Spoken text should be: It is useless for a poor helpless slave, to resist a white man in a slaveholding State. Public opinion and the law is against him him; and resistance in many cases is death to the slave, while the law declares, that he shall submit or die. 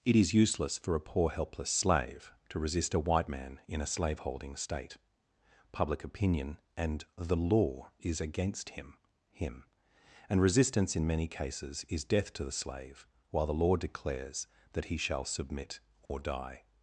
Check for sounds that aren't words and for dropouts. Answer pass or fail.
fail